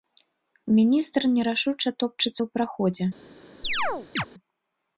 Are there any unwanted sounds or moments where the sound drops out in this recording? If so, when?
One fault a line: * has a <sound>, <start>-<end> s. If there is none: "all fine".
* has a chirp, 3.6-4.3 s